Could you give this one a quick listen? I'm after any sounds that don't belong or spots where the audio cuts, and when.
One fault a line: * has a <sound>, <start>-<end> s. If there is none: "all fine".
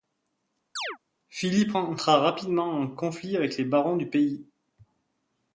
* has a chirp, 0.8-1.0 s